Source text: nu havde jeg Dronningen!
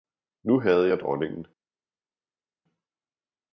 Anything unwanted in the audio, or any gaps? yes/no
no